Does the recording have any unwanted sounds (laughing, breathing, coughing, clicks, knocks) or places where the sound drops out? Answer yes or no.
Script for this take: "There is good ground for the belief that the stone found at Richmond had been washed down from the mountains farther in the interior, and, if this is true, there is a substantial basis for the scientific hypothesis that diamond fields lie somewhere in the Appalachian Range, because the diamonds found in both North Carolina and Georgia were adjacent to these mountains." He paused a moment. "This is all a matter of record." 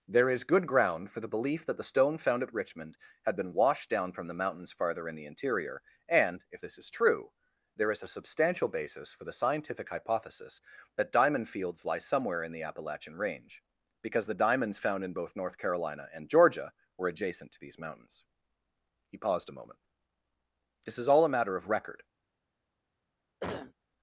yes